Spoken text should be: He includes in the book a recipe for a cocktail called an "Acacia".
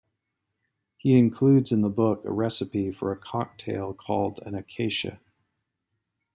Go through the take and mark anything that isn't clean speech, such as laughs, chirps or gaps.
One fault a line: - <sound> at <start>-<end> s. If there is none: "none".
none